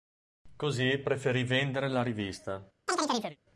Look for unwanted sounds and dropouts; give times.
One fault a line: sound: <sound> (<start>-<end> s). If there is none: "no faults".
sound: chirp (2.9-3.4 s)